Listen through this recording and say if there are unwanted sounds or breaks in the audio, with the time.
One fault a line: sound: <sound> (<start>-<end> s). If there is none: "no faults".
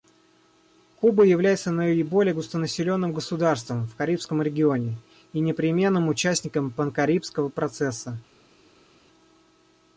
no faults